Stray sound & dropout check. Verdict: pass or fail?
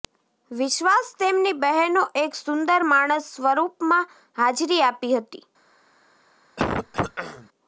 fail